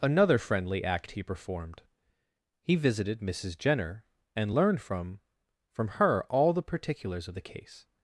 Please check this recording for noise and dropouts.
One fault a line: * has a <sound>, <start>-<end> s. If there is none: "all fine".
all fine